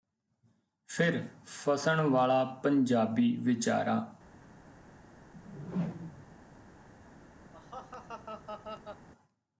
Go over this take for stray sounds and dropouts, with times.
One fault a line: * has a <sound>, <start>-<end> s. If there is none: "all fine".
* has a whoosh, 5.3-6.4 s
* has a laugh, 7.5-9.1 s